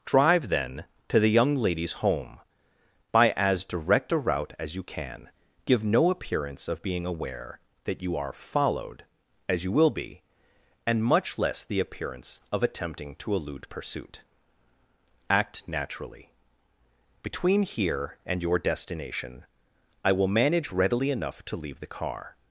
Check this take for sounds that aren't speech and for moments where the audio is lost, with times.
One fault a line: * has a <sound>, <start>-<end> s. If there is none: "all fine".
all fine